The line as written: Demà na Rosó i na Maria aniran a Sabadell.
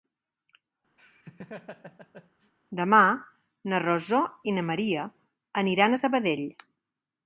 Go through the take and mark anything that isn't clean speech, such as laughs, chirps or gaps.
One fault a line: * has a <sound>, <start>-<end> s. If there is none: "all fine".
* has a laugh, 1.0-2.5 s